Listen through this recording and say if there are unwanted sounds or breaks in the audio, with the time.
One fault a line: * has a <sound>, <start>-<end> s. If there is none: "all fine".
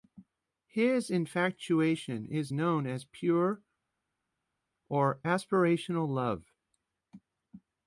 all fine